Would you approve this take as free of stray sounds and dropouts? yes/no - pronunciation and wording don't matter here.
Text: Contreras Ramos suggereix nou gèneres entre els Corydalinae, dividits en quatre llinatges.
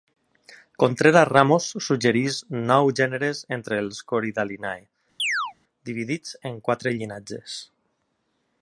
no